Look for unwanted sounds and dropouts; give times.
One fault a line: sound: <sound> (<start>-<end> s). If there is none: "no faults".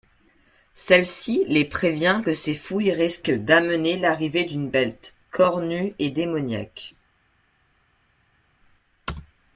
no faults